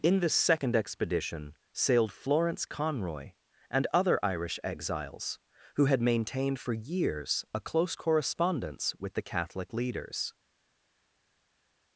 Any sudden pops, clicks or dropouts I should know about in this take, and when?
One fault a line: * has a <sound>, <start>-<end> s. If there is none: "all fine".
all fine